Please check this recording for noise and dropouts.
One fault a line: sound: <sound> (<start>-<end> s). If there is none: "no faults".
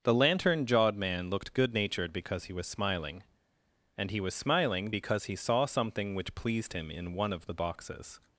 no faults